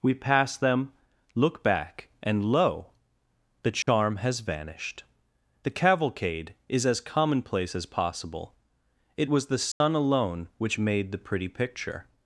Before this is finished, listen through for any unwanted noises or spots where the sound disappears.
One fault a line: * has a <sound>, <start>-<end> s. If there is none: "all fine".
* has a dropout, 3.8-3.9 s
* has a dropout, 9.7-9.8 s